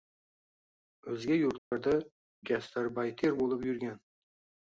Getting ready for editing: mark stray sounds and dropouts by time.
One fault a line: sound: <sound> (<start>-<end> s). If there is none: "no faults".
sound: dropout (1.6-1.7 s)